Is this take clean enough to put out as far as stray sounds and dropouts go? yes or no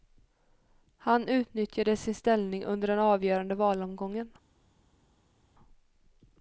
yes